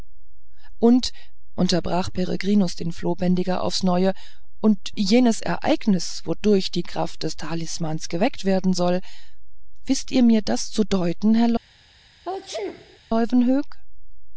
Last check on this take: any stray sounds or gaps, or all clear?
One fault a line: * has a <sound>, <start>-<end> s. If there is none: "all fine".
* has a sneeze, 12.2-13.0 s